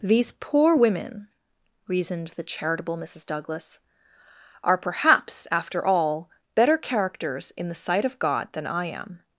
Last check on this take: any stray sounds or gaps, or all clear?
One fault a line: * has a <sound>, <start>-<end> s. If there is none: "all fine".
all fine